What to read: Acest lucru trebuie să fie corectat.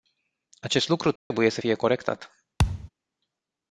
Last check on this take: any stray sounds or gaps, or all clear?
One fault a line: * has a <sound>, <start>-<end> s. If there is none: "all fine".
* has a dropout, 1.2-1.3 s
* has a thud, 2.6-2.9 s